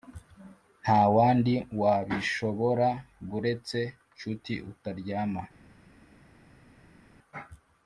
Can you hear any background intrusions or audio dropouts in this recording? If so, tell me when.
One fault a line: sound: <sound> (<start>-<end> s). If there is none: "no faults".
no faults